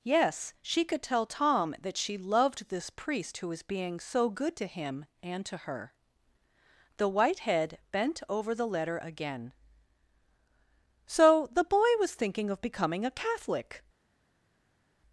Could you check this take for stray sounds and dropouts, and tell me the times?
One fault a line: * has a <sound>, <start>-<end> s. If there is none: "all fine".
all fine